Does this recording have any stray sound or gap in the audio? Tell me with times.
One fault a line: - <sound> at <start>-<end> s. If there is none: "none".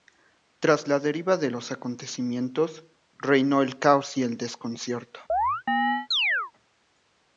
- chirp at 5.3-6.5 s